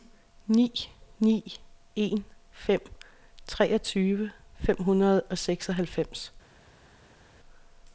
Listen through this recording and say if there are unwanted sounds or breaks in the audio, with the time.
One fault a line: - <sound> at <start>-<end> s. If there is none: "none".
none